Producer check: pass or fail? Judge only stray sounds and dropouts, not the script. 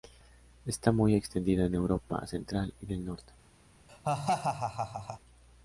fail